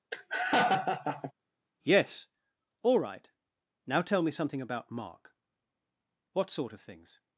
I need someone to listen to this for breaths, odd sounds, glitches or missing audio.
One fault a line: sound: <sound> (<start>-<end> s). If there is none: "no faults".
sound: laugh (0.1-1.3 s)